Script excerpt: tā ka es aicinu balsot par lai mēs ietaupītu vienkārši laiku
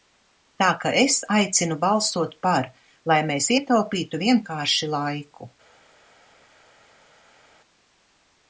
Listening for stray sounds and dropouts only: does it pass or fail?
pass